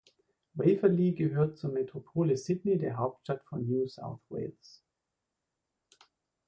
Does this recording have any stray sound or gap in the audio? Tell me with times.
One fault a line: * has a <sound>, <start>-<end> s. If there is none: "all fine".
all fine